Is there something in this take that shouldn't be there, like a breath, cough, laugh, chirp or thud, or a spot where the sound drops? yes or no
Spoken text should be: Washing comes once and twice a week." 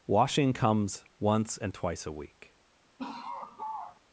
yes